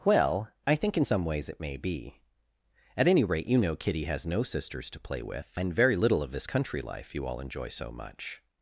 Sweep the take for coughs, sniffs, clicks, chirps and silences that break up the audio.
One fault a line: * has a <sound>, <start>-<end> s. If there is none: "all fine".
all fine